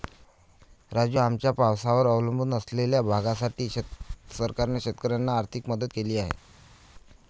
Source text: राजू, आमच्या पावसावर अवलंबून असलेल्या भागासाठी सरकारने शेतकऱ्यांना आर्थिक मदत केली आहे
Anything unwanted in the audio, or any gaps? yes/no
no